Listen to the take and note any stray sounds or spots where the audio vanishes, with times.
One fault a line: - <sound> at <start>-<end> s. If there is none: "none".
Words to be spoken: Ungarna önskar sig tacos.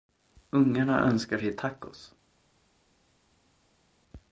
none